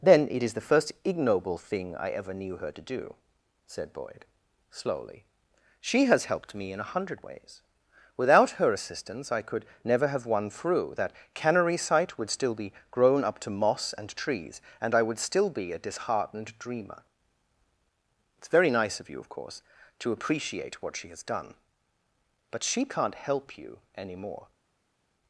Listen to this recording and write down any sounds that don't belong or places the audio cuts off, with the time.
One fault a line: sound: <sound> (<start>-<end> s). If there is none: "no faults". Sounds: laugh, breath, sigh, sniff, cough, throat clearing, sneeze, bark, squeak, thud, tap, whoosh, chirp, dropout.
no faults